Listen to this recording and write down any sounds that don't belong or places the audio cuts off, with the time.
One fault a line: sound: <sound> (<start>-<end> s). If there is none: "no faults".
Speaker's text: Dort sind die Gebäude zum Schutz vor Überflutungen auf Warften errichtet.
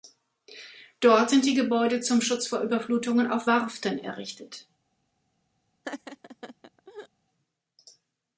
sound: laugh (5.8-7.1 s)